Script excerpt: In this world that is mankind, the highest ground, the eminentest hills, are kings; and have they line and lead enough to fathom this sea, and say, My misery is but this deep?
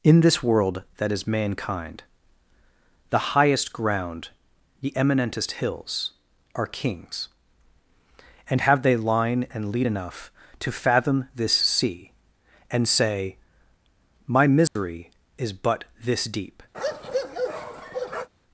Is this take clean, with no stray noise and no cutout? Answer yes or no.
no